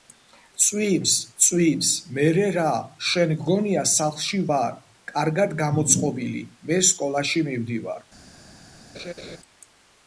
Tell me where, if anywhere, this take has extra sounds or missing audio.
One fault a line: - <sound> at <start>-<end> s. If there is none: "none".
- laugh at 8.9-9.4 s